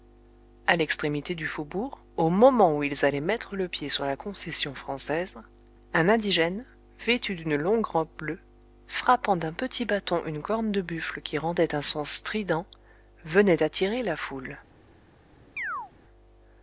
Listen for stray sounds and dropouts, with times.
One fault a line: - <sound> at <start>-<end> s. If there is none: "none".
- chirp at 15.6-15.9 s